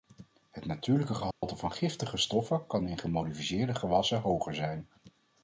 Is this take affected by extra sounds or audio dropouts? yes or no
yes